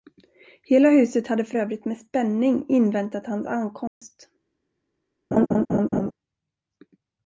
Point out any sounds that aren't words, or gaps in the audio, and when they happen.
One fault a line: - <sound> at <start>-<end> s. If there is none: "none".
- dropout at 3.9-4.0 s
- laugh at 5.3-6.1 s